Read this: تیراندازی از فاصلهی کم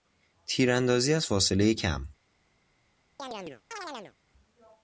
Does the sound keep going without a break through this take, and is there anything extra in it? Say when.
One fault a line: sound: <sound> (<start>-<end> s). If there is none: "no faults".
sound: chirp (3.2-4.1 s)